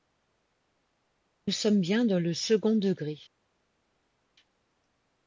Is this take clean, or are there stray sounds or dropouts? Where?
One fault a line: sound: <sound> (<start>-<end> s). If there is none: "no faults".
no faults